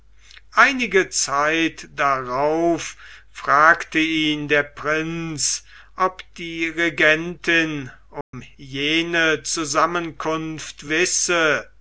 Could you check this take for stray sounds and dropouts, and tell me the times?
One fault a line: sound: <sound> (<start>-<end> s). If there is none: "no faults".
sound: dropout (8.2-8.3 s)